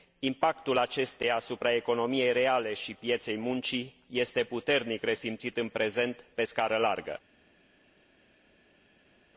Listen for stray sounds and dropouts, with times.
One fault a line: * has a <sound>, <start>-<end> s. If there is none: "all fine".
all fine